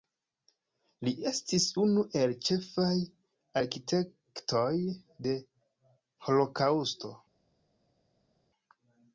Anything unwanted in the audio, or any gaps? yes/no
no